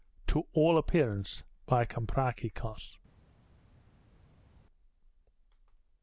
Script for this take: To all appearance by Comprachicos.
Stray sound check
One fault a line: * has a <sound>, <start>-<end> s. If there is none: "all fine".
all fine